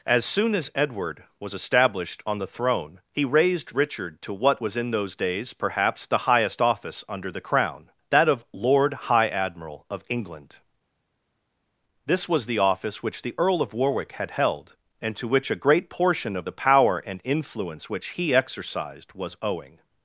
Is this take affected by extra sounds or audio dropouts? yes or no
no